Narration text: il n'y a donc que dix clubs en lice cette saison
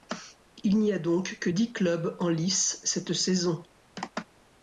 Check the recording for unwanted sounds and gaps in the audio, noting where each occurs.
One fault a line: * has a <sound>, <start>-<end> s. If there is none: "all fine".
all fine